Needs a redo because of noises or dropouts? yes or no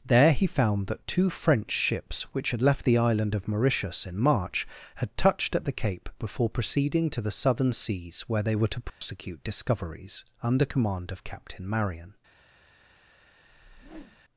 yes